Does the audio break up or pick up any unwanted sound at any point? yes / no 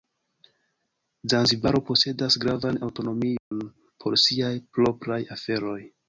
yes